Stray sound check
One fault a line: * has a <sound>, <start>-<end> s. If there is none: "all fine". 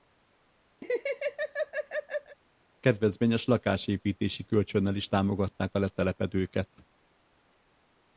* has a laugh, 0.8-2.4 s